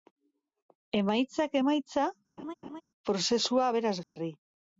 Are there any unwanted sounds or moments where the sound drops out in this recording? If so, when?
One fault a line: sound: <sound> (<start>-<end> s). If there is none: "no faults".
sound: laugh (2.4-2.8 s)
sound: dropout (4.0-4.2 s)